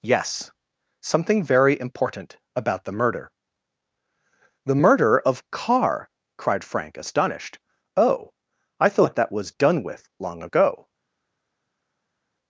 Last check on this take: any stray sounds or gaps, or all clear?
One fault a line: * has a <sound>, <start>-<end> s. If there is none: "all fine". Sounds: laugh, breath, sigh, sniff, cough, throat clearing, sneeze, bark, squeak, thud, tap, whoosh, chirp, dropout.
all fine